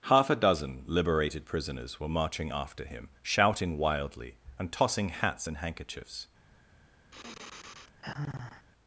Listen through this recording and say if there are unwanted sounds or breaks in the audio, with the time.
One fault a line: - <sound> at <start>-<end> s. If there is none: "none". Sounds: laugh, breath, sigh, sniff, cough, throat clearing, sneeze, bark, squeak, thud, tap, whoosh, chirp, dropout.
- sigh at 7.1-8.7 s